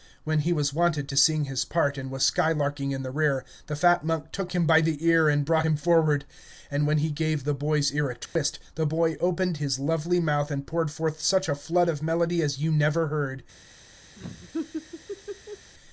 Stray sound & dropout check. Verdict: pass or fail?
fail